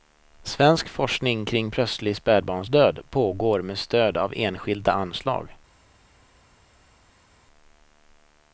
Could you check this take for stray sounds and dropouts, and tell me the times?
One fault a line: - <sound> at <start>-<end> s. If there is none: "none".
none